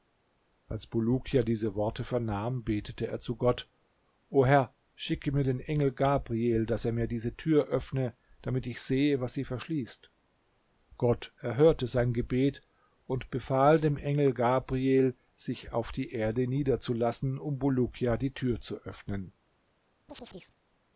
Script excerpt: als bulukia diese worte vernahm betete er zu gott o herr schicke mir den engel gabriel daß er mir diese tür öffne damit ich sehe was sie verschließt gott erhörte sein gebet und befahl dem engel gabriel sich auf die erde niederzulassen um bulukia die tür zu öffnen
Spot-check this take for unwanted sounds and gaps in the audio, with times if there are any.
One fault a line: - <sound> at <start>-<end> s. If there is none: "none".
- chirp at 20.1-20.6 s